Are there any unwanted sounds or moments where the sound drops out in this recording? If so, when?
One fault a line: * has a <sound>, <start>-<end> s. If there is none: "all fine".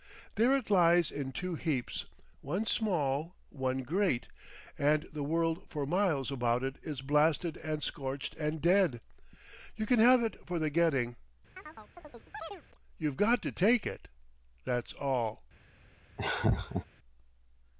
* has a chirp, 11.6-12.6 s
* has a laugh, 16.2-16.9 s